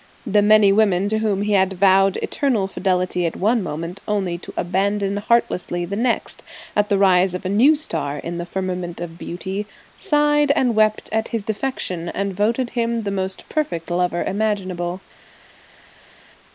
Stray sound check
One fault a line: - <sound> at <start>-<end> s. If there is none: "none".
none